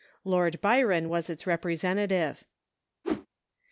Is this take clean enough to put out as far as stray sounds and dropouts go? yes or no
no